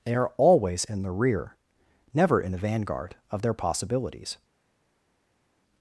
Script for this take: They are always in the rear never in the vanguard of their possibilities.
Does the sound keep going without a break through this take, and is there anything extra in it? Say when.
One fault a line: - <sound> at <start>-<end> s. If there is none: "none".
none